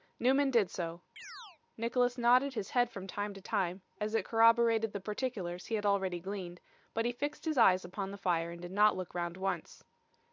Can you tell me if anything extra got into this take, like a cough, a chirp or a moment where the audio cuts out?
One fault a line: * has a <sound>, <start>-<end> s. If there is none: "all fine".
* has a chirp, 1.2-1.6 s